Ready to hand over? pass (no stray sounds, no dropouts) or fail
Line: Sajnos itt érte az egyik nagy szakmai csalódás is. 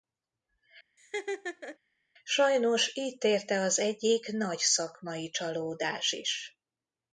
fail